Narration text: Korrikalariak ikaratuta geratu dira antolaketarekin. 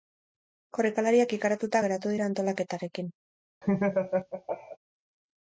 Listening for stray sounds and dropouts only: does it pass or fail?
fail